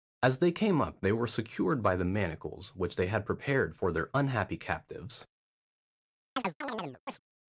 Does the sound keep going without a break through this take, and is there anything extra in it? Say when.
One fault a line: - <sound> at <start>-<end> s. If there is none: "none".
- chirp at 6.4-7.2 s